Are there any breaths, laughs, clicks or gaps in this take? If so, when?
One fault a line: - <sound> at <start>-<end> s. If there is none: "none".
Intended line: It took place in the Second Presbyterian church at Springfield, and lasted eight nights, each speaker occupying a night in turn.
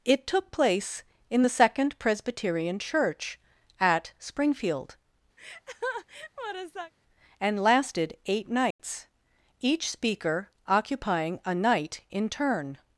- laugh at 5.4-6.9 s
- dropout at 8.7-8.8 s